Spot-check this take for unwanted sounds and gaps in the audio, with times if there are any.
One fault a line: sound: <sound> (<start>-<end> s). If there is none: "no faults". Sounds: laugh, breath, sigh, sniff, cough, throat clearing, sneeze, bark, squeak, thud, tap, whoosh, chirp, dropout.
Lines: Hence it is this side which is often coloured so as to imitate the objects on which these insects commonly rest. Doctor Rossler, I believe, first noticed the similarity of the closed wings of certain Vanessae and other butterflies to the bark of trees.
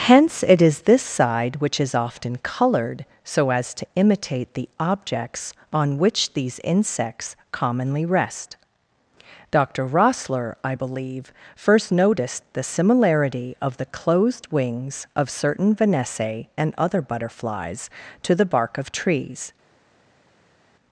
no faults